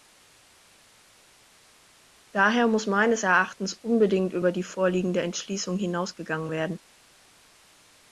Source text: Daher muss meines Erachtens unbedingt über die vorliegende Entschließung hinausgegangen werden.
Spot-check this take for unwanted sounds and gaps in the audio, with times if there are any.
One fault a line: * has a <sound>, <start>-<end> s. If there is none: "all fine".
all fine